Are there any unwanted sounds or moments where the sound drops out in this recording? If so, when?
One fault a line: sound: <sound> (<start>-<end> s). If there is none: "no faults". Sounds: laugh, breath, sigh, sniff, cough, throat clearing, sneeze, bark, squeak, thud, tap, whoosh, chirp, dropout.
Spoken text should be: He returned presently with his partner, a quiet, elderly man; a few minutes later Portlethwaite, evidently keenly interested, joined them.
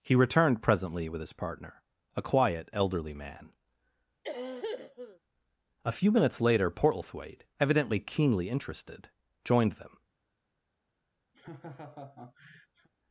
sound: cough (4.2-5.2 s)
sound: laugh (11.3-12.9 s)